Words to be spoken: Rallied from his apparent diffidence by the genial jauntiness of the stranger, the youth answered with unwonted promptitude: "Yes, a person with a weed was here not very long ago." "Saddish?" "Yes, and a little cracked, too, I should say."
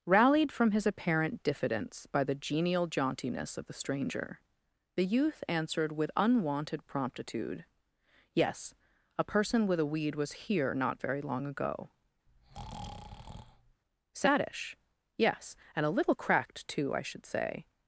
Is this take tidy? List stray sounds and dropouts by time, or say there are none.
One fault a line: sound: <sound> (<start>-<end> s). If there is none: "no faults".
sound: breath (12.3-13.8 s)